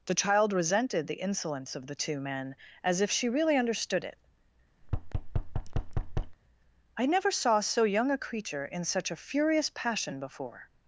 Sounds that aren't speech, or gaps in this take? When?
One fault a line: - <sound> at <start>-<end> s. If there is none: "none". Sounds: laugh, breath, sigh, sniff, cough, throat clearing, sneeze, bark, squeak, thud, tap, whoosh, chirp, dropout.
- thud at 4.8-6.4 s